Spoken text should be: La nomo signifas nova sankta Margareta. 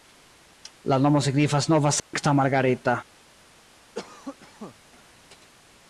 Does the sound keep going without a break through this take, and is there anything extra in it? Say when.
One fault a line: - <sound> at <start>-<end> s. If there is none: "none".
- dropout at 2.0-2.1 s
- cough at 3.9-4.8 s